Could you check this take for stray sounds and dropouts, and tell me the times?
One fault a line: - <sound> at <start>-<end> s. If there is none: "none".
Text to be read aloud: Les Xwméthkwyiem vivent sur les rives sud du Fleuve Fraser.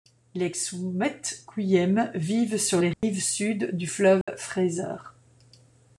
- dropout at 2.9-3.0 s
- dropout at 4.2-4.3 s